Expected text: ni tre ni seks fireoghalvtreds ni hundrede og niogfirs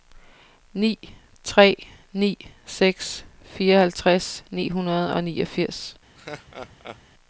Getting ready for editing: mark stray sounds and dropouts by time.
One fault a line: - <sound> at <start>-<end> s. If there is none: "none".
- laugh at 6.2-7.0 s